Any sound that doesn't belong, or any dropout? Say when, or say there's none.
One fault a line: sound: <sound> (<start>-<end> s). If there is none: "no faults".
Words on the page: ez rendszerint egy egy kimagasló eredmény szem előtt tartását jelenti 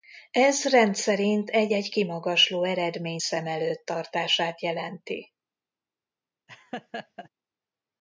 sound: laugh (6.5-7.3 s)